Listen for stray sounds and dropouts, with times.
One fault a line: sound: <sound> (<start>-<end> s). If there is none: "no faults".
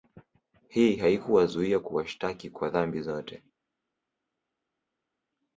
no faults